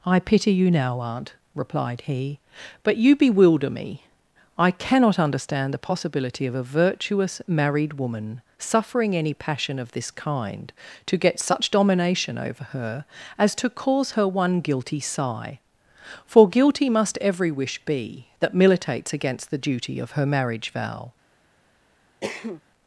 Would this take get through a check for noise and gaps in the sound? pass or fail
fail